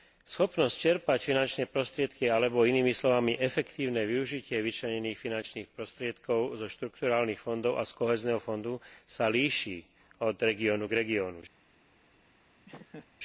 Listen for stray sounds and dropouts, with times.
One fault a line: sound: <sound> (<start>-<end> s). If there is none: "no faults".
sound: laugh (12.7-13.1 s)